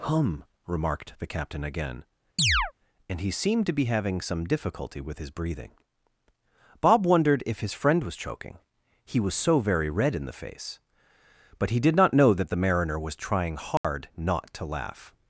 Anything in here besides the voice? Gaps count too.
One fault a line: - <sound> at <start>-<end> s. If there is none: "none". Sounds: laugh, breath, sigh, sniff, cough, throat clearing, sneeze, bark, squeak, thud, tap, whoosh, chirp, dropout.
- chirp at 2.4-2.7 s
- dropout at 13.8-13.8 s